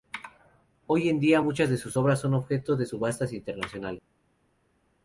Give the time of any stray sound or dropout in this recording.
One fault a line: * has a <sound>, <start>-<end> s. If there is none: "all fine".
all fine